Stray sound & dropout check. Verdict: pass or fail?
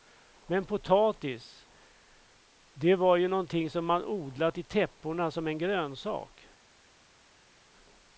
pass